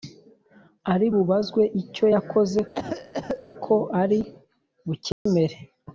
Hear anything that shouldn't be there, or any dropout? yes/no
yes